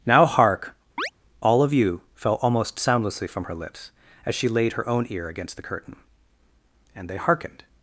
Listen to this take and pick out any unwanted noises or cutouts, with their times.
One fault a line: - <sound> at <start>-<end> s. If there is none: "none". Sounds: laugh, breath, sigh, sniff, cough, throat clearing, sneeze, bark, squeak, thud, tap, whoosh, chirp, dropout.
- chirp at 1.0-1.1 s